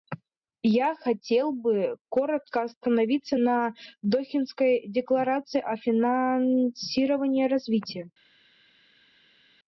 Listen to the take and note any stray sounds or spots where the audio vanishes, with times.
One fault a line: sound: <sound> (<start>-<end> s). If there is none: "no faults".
no faults